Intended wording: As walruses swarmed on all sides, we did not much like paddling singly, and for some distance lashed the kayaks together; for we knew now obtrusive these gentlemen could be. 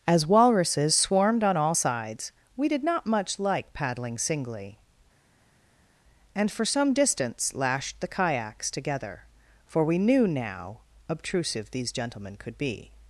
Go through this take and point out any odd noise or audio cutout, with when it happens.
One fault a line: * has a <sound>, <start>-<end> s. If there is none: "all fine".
all fine